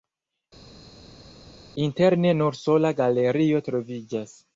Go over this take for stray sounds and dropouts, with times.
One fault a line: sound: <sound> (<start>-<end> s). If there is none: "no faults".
no faults